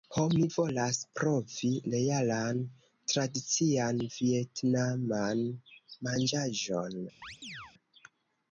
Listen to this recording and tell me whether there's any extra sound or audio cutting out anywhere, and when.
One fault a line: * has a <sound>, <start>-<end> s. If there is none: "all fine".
* has a chirp, 7.2-7.7 s